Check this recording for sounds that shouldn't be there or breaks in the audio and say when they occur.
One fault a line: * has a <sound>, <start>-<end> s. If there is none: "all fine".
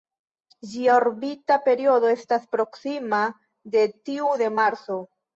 all fine